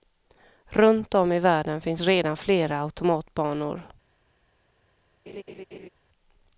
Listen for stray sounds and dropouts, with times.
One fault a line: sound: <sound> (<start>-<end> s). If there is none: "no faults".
sound: laugh (5.3-5.9 s)